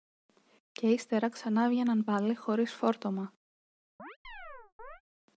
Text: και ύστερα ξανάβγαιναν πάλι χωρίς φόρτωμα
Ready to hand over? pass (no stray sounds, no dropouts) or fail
fail